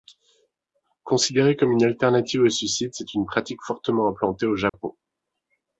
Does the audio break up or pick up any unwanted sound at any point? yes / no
yes